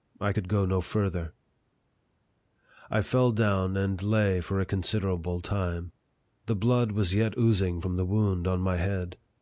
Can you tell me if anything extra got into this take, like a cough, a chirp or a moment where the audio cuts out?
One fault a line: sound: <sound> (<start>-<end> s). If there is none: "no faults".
no faults